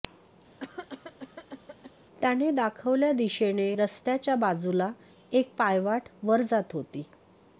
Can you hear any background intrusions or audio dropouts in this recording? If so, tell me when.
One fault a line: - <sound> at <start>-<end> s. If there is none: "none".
- cough at 0.6-1.9 s